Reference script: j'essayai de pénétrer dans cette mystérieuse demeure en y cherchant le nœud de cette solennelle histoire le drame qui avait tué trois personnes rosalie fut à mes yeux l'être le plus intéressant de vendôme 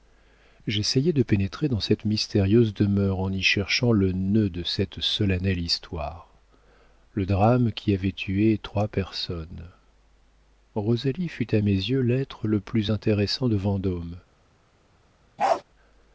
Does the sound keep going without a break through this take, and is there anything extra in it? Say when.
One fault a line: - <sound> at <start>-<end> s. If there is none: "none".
- bark at 15.4-15.6 s